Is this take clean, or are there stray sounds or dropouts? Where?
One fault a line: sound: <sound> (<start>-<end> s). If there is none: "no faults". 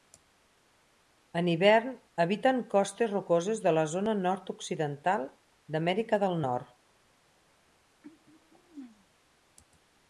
sound: throat clearing (8.0-9.1 s)